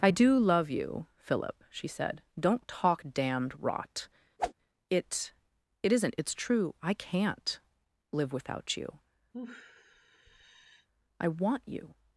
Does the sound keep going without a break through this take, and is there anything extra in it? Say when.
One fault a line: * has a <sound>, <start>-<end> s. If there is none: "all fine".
* has a whoosh, 4.4-4.5 s
* has a sigh, 9.3-10.9 s